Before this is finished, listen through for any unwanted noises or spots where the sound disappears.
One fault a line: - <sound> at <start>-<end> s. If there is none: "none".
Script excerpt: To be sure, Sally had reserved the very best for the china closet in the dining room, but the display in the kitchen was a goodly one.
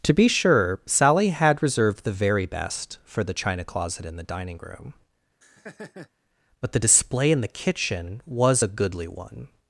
- laugh at 5.4-6.1 s